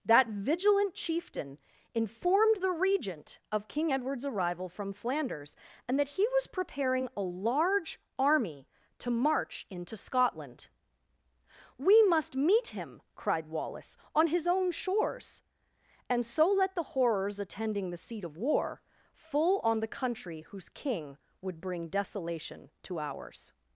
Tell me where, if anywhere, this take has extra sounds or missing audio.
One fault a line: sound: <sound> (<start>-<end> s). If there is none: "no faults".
no faults